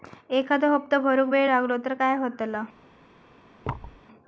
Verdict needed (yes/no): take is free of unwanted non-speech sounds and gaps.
no